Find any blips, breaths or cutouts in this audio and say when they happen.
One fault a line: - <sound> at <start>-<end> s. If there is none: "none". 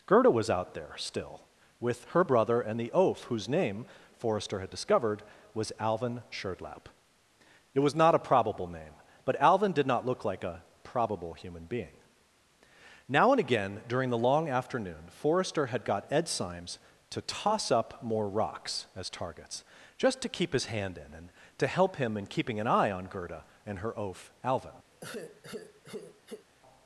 - sigh at 24.9-26.5 s